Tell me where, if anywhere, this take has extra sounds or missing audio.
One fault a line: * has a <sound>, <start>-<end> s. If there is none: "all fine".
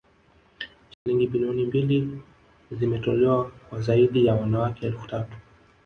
* has a dropout, 0.9-1.1 s